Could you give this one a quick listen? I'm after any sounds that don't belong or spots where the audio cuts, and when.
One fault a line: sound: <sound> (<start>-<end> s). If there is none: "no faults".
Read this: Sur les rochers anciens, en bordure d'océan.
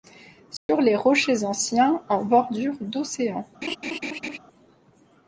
sound: dropout (0.6-0.7 s)
sound: laugh (3.6-4.4 s)